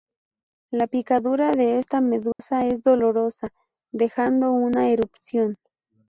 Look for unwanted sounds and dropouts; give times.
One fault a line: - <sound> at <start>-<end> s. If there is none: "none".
- dropout at 2.3-2.4 s